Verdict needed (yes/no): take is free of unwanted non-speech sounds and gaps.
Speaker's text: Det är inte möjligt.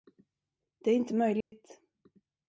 no